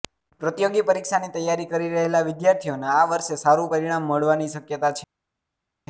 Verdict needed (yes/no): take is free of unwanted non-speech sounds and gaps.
yes